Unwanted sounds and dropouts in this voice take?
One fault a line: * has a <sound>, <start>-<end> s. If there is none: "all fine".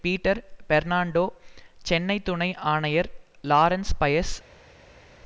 all fine